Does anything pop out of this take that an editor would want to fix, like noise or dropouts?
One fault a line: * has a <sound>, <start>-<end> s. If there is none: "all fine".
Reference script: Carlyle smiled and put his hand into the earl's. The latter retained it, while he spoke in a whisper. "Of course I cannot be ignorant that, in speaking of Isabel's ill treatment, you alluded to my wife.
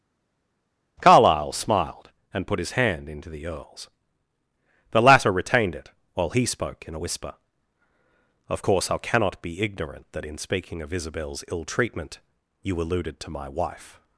all fine